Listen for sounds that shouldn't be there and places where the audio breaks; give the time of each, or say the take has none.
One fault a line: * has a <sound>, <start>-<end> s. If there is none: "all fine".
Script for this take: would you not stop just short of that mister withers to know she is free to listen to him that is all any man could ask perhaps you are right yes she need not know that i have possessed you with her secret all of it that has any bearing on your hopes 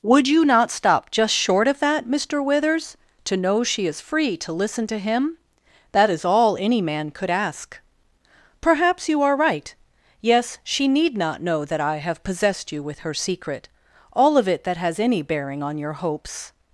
all fine